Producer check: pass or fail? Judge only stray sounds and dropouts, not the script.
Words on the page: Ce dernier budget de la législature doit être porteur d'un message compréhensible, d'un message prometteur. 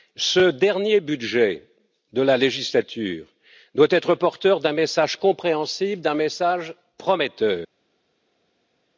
pass